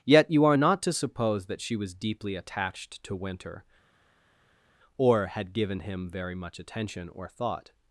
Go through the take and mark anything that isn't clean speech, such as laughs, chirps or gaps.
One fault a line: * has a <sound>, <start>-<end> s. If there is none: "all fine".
all fine